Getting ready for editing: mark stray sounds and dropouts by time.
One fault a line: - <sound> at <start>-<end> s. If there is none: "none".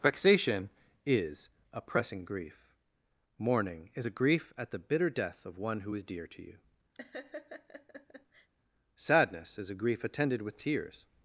- laugh at 6.9-8.5 s